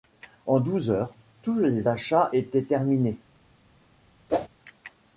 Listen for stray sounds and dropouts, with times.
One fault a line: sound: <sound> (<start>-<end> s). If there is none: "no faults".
sound: whoosh (4.3-4.5 s)